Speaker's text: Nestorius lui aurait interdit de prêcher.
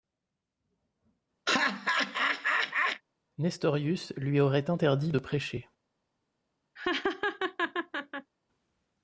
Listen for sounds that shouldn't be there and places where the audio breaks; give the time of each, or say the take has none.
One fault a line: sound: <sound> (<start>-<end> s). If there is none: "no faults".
sound: laugh (1.5-3.0 s)
sound: laugh (6.8-8.3 s)